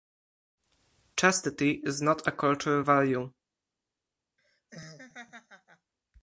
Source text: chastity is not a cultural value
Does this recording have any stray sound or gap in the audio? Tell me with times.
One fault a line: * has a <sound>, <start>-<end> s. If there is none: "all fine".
* has a laugh, 4.4-5.9 s